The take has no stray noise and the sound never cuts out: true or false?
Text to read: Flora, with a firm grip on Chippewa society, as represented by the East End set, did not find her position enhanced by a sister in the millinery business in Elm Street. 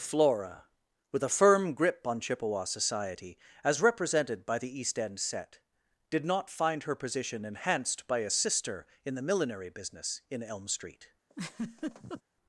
false